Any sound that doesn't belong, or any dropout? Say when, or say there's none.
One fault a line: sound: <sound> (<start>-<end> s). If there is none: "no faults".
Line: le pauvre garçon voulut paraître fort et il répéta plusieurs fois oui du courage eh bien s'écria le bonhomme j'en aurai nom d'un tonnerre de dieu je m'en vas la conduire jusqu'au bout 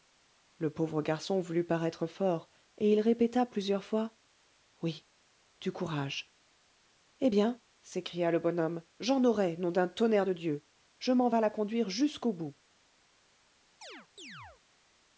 sound: chirp (13.8-14.6 s)